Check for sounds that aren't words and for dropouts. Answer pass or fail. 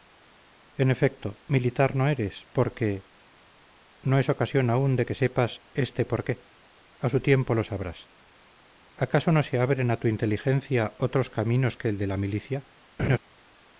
fail